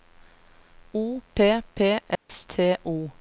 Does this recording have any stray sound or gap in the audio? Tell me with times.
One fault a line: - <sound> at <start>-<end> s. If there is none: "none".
- dropout at 2.2-2.3 s